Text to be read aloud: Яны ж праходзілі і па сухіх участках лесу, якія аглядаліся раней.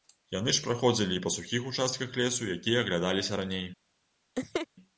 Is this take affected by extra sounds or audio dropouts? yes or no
yes